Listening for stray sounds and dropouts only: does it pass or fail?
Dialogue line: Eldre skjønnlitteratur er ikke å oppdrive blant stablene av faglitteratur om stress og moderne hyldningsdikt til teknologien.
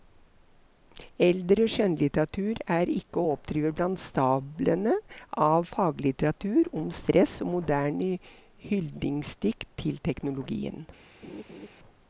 fail